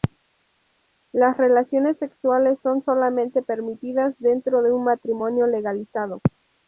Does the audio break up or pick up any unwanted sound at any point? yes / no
no